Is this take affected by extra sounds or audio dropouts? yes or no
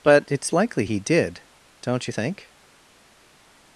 no